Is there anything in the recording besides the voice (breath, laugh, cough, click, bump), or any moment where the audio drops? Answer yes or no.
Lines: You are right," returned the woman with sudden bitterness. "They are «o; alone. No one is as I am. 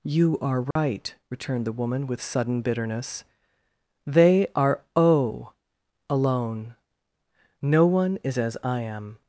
yes